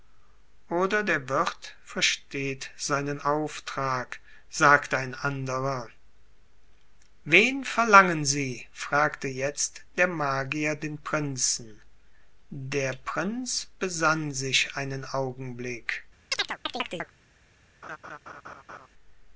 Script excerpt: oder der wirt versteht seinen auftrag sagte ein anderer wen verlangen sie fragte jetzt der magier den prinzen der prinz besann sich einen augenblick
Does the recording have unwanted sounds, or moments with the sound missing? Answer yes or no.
yes